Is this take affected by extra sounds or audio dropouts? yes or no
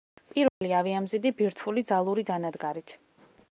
yes